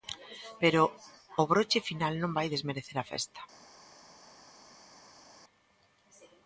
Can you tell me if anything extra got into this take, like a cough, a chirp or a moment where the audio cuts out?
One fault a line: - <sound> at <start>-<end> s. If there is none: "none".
none